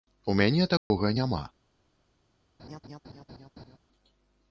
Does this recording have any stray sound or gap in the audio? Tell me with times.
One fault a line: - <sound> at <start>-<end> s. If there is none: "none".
- dropout at 0.8-0.9 s
- laugh at 2.6-3.8 s